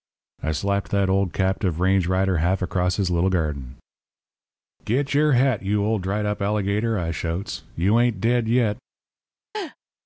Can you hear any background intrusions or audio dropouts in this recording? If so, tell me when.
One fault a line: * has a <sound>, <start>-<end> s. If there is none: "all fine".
* has a laugh, 9.5-9.8 s